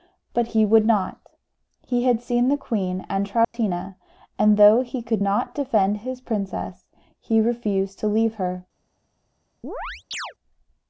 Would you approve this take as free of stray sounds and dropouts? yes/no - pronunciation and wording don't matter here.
no